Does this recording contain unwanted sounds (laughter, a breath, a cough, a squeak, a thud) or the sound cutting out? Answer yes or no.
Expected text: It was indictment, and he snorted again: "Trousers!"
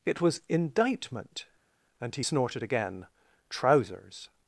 no